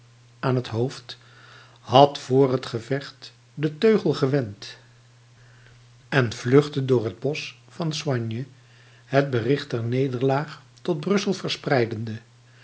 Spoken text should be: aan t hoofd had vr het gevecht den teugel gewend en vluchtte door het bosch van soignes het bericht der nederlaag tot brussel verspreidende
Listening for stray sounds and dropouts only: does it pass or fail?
pass